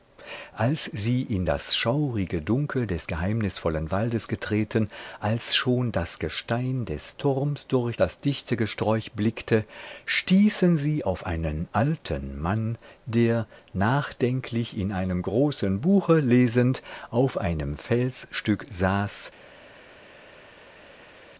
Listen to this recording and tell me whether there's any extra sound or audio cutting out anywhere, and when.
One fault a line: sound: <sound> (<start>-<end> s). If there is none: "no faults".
no faults